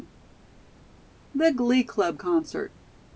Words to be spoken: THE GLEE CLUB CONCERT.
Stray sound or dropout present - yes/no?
no